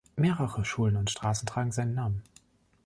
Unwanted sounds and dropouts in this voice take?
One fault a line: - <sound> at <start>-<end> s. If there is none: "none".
none